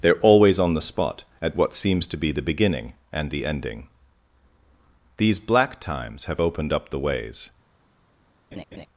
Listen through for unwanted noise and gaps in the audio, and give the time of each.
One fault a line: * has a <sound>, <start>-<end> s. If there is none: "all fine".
* has a laugh, 8.5-8.9 s